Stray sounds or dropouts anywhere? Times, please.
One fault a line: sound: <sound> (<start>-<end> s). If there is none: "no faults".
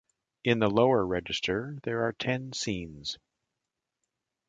no faults